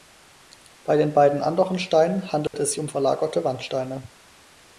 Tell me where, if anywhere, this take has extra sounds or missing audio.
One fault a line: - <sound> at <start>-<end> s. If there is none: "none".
- dropout at 2.5-2.5 s